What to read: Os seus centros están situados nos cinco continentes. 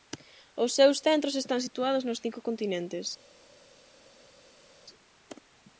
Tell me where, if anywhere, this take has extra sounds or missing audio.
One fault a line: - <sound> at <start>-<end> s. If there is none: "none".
none